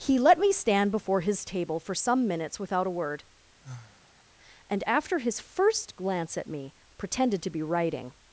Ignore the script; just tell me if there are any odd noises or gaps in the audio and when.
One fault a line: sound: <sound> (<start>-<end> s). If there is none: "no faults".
sound: sigh (3.6-4.2 s)